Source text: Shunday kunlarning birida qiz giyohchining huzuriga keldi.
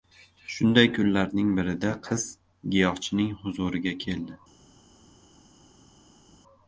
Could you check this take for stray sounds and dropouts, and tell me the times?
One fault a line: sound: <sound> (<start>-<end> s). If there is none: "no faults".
no faults